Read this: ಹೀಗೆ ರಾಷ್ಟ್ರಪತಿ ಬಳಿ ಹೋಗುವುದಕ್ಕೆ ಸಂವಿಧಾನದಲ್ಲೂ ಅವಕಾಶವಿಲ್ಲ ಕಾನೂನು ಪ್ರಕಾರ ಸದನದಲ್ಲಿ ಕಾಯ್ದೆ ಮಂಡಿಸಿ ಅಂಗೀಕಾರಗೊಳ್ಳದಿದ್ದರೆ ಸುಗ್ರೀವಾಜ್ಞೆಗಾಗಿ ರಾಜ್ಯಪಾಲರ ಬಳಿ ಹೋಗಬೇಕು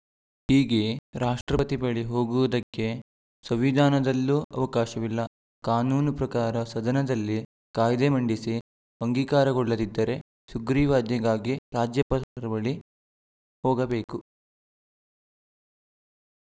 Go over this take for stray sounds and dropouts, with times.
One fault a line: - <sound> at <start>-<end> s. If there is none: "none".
none